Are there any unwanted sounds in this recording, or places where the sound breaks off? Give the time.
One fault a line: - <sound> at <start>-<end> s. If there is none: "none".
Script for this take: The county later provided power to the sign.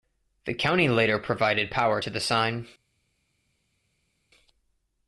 none